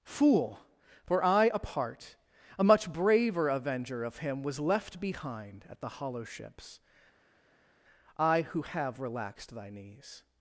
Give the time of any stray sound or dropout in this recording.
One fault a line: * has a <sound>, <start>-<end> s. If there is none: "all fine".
all fine